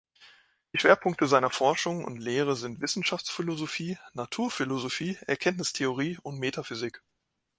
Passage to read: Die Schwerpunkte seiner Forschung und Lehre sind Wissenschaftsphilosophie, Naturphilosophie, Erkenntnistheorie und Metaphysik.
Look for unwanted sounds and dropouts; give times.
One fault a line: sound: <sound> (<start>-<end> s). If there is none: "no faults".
no faults